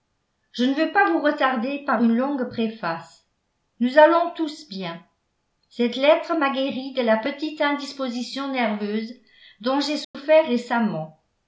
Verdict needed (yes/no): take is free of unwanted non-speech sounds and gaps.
no